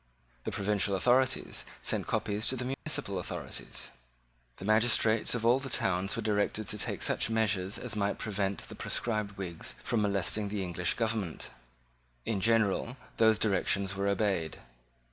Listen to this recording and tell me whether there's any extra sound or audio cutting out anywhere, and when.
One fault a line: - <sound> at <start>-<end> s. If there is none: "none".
- dropout at 2.7-2.9 s